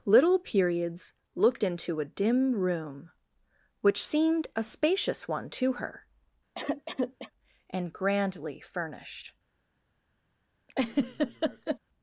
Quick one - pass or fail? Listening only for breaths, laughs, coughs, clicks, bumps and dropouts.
fail